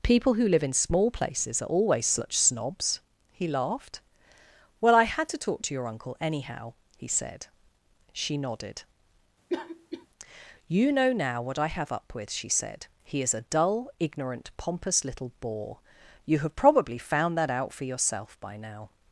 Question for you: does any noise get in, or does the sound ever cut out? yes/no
yes